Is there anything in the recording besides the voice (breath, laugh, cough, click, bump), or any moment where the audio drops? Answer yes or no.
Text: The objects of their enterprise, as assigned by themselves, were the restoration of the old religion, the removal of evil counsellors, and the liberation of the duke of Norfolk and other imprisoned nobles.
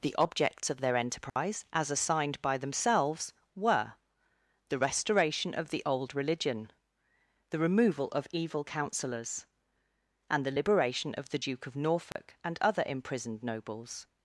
yes